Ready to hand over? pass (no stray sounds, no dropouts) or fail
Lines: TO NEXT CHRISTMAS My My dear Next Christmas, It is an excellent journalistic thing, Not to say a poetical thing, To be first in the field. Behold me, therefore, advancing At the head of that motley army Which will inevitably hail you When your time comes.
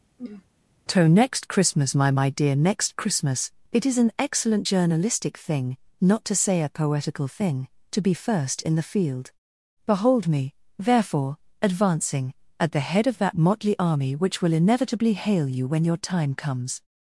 fail